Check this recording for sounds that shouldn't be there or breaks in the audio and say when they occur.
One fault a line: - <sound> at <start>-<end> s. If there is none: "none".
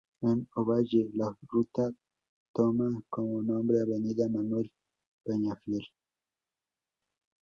none